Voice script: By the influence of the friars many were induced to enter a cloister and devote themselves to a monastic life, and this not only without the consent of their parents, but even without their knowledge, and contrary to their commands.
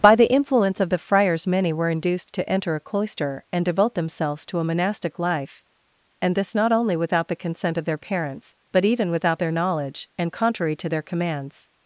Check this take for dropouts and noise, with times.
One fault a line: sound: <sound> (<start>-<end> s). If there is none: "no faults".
no faults